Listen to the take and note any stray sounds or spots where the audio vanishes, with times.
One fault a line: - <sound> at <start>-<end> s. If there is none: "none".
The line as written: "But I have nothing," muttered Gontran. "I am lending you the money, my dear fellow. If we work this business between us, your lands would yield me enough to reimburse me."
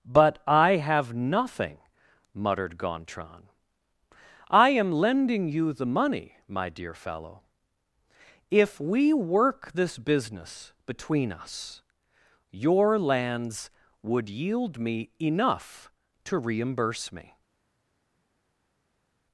none